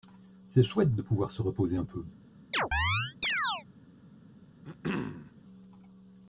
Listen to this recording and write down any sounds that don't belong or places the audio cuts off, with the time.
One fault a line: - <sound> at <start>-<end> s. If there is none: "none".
- chirp at 2.5-3.6 s
- throat clearing at 4.6-5.3 s